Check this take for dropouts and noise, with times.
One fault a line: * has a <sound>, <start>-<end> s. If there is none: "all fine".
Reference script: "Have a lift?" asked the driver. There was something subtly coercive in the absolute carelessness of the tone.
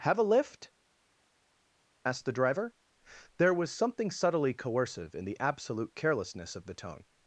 all fine